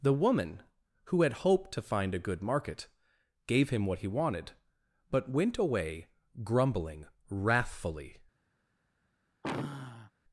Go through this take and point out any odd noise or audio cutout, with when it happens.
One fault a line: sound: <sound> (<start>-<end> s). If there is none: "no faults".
sound: sigh (9.4-10.1 s)